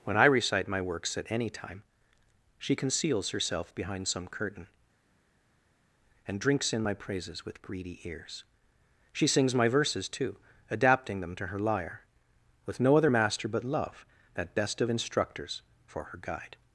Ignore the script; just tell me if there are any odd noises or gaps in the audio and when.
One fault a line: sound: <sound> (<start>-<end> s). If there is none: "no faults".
no faults